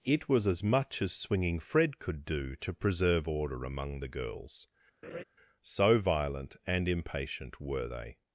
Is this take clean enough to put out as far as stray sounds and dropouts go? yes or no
no